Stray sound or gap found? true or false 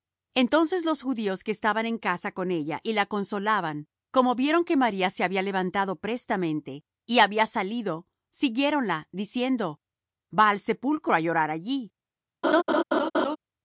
true